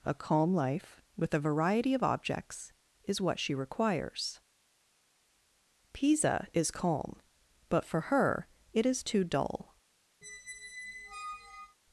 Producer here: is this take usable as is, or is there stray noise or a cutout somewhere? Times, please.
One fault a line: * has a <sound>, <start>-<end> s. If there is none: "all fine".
* has a squeak, 10.2-11.8 s